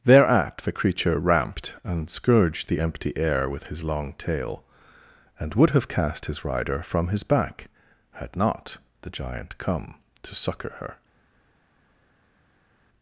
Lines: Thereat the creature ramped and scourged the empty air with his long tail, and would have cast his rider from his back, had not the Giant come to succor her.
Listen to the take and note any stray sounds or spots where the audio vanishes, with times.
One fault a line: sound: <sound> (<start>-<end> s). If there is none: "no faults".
no faults